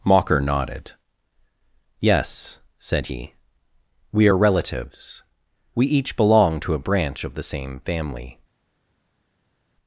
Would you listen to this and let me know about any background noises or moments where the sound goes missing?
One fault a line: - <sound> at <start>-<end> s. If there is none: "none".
none